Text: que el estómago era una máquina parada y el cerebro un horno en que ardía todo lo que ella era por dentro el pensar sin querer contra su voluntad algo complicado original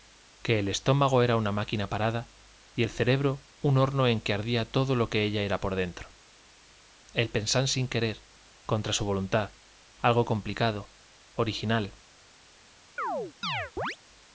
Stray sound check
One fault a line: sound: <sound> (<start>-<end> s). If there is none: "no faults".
sound: chirp (13.0-14.0 s)